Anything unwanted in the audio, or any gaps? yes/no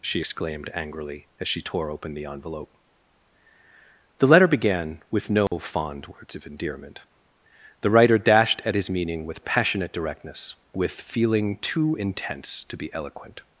yes